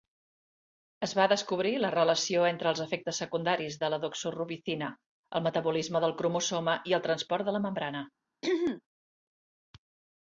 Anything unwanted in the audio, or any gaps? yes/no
yes